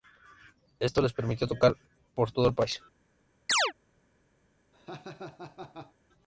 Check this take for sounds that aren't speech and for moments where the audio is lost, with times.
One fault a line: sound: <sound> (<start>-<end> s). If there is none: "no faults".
sound: chirp (3.5-3.7 s)
sound: laugh (4.7-5.9 s)